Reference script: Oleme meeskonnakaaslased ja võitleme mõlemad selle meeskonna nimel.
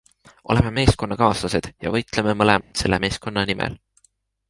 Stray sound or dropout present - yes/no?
yes